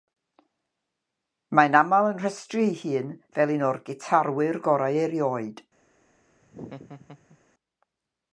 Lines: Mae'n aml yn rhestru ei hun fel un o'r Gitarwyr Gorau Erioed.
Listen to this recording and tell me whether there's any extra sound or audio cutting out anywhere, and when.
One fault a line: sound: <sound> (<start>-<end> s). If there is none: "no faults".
sound: laugh (6.4-7.4 s)